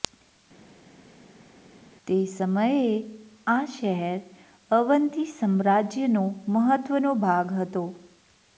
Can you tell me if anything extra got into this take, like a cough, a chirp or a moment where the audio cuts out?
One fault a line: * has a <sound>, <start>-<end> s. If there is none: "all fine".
all fine